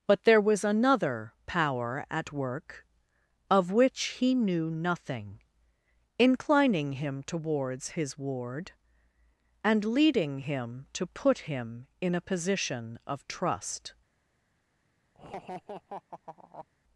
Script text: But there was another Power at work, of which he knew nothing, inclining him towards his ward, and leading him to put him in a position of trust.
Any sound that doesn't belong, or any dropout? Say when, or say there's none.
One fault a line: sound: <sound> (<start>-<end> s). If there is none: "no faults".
sound: laugh (15.1-16.7 s)